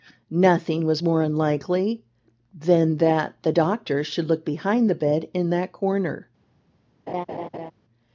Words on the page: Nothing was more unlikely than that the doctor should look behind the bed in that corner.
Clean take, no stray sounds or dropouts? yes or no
no